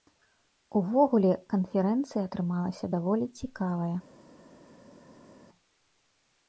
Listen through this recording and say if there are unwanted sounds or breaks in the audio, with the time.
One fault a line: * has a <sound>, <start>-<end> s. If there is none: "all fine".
all fine